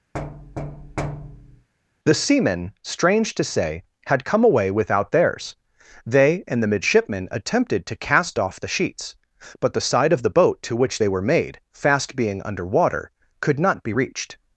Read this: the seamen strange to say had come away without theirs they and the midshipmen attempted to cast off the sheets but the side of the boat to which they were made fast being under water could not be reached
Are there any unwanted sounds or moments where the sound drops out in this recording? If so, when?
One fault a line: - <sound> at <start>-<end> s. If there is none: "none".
- thud at 0.1-1.7 s